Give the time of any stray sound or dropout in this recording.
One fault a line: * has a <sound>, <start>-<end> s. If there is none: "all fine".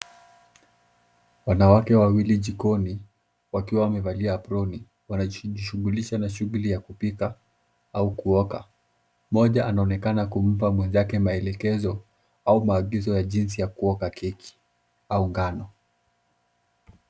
all fine